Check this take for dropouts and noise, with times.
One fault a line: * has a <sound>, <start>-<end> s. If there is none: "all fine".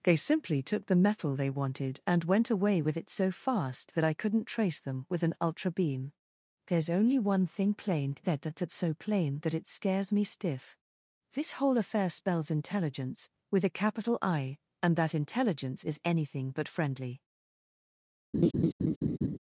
* has a laugh, 18.3-19.4 s